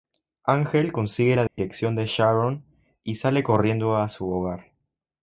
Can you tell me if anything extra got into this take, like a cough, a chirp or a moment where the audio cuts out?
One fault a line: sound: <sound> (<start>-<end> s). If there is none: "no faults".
sound: dropout (1.5-1.6 s)